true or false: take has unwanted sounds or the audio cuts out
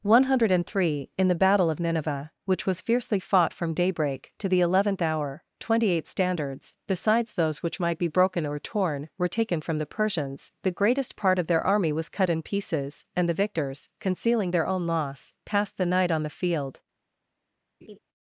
true